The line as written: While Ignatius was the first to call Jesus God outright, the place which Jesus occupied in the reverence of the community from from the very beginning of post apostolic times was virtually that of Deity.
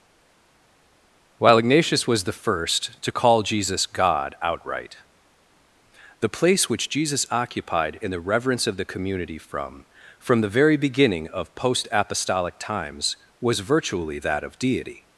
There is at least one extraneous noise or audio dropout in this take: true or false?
false